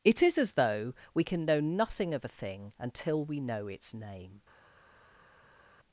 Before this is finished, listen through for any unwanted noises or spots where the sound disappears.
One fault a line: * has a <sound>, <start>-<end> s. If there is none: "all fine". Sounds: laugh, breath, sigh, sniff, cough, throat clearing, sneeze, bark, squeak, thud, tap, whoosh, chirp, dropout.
all fine